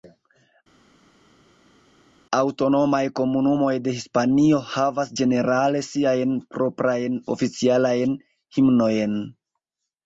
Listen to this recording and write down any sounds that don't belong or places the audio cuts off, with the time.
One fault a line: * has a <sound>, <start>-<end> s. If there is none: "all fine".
all fine